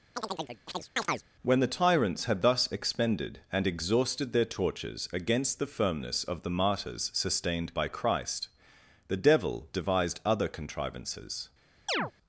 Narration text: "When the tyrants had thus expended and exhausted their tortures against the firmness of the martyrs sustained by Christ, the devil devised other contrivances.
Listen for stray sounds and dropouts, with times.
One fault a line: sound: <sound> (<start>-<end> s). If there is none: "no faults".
sound: chirp (0.2-1.2 s)
sound: chirp (11.9-12.1 s)